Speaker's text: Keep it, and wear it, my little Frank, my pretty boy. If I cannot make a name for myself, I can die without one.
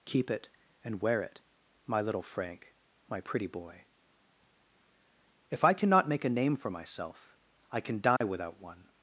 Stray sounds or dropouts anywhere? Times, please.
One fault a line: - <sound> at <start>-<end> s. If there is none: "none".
- dropout at 8.2-8.2 s